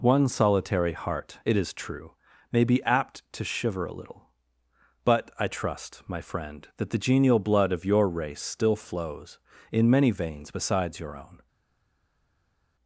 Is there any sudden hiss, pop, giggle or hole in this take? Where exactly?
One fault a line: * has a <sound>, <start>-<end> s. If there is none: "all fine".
all fine